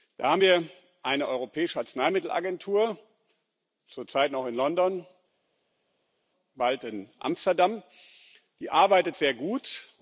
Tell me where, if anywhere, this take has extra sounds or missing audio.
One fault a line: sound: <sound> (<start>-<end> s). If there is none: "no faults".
no faults